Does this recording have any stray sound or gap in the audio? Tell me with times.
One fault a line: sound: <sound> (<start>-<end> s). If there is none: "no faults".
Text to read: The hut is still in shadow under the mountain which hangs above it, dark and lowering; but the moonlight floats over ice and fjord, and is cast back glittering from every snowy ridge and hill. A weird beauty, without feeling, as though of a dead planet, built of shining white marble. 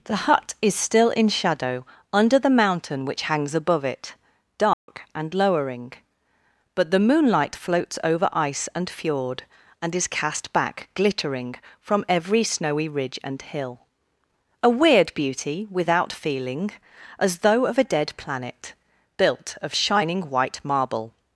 sound: dropout (4.7-4.9 s)